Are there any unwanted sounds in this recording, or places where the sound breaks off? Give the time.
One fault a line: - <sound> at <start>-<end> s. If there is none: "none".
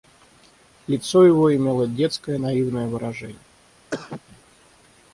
- cough at 3.9-4.2 s